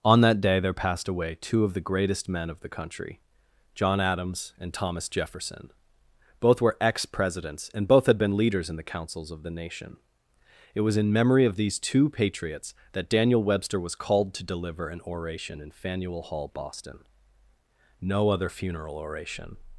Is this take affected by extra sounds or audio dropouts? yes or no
no